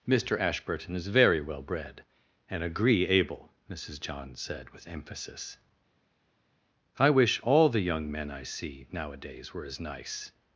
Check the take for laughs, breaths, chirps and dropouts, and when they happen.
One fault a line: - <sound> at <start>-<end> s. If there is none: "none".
none